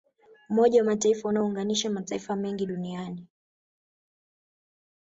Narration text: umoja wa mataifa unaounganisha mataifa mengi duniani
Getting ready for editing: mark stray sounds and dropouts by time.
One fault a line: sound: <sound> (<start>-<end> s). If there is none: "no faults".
no faults